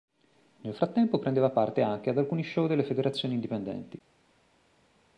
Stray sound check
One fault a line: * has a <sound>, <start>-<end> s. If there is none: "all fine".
all fine